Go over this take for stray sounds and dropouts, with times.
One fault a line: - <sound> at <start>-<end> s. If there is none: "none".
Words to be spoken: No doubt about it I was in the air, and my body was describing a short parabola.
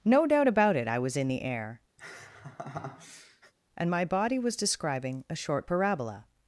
- laugh at 2.0-3.5 s